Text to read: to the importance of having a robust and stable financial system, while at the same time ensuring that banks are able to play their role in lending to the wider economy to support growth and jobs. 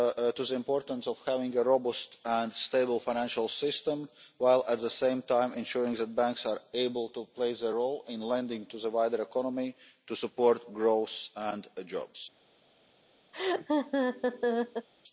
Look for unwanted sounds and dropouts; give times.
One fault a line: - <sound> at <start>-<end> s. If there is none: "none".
- laugh at 13.3-14.9 s